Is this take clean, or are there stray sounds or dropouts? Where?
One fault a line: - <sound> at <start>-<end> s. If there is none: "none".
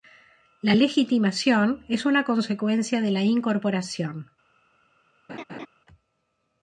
- laugh at 5.3-5.7 s